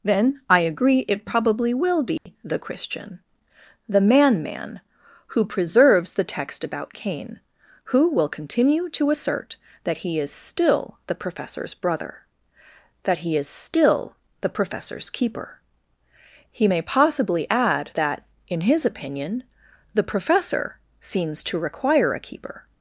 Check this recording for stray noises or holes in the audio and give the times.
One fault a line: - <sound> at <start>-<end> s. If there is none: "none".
- dropout at 2.2-2.3 s